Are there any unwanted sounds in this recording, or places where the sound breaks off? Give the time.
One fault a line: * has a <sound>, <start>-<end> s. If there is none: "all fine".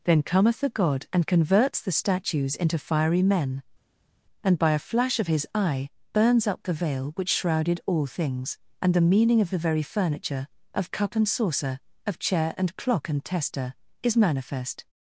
all fine